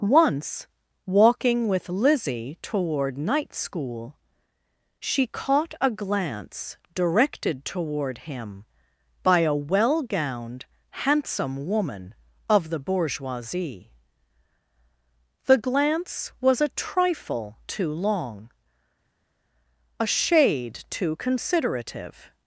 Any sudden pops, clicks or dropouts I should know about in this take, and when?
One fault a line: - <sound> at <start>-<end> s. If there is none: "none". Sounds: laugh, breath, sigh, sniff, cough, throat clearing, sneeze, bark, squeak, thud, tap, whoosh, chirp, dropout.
none